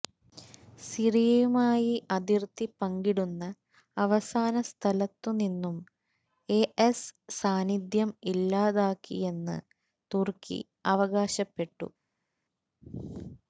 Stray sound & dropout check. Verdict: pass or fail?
pass